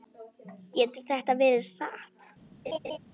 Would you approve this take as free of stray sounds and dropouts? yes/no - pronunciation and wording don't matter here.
no